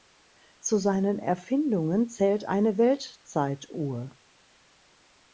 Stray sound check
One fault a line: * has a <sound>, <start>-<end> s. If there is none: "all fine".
all fine